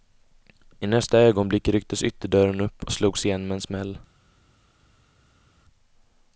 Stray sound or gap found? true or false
false